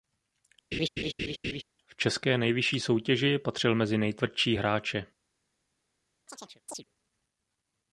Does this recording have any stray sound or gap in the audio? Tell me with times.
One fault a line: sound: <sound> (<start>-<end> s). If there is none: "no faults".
sound: laugh (0.7-1.6 s)
sound: chirp (6.3-6.8 s)